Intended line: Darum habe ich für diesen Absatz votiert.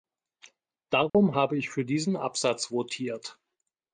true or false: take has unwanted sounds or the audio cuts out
true